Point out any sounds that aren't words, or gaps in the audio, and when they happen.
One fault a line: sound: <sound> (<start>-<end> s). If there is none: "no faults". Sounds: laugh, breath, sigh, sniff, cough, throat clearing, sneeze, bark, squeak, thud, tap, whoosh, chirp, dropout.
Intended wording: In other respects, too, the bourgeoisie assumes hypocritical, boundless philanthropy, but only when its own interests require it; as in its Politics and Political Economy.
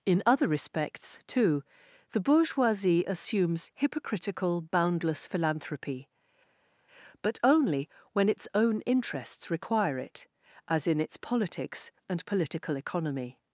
no faults